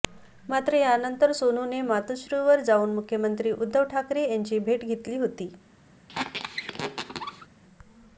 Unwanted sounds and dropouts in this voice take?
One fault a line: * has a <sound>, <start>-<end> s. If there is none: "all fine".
* has a squeak, 6.1-7.5 s